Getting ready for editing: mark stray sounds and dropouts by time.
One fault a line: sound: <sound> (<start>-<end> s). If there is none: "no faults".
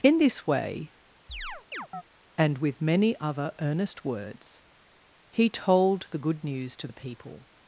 sound: chirp (1.3-2.0 s)